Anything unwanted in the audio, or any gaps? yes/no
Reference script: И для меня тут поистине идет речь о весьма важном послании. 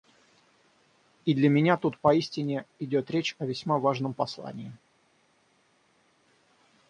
no